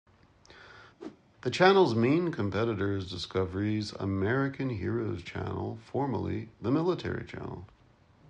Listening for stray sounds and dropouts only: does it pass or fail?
fail